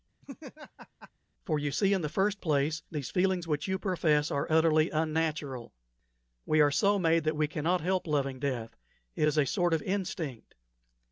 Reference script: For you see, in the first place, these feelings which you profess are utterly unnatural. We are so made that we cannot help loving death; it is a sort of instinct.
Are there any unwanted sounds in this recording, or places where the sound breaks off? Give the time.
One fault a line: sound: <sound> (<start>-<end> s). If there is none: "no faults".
sound: laugh (0.2-1.1 s)